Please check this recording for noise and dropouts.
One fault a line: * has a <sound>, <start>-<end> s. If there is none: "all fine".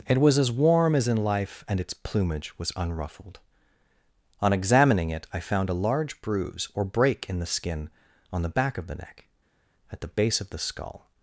all fine